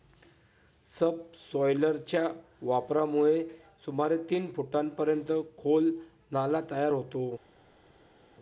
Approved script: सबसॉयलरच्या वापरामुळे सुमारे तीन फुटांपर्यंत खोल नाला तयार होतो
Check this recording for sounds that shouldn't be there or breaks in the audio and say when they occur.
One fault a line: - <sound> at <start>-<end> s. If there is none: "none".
none